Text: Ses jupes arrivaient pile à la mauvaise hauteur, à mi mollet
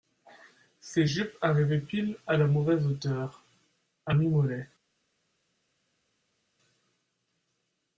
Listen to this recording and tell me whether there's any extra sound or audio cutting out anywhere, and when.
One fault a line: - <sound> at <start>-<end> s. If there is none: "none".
none